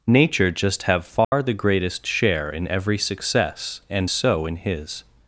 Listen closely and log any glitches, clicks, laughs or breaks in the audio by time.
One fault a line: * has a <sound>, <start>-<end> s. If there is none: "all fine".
* has a dropout, 1.2-1.3 s